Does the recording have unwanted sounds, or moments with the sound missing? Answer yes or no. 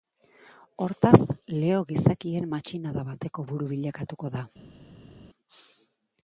no